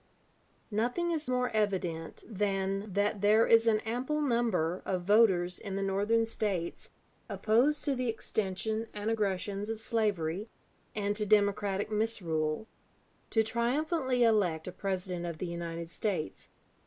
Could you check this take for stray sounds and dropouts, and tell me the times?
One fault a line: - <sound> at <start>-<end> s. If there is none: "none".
none